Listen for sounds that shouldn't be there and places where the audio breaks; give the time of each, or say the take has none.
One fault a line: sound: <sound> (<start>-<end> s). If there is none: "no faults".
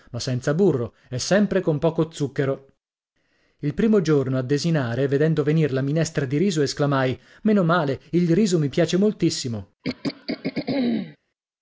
sound: throat clearing (9.8-11.2 s)